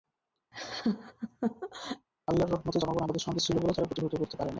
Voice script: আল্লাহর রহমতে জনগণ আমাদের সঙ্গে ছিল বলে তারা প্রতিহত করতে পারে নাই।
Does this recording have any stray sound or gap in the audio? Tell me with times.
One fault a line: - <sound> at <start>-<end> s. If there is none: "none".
- laugh at 0.5-2.1 s